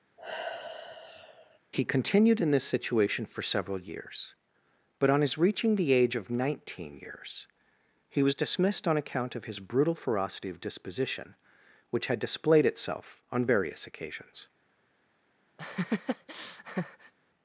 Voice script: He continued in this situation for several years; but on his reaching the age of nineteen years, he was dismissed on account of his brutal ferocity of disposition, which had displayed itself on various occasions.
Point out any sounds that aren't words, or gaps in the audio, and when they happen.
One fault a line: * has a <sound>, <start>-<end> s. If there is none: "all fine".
* has a sigh, 0.2-1.6 s
* has a laugh, 15.6-17.1 s